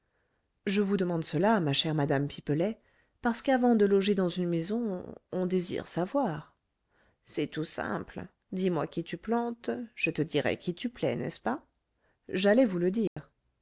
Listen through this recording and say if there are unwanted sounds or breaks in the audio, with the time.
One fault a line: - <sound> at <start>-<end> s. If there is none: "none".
- dropout at 13.1-13.2 s